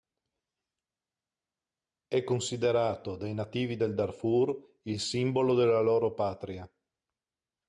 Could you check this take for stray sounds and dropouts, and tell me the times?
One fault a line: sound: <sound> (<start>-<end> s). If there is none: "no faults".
no faults